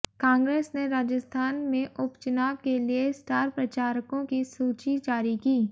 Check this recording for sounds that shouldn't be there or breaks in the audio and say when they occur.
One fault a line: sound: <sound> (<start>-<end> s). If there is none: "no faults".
no faults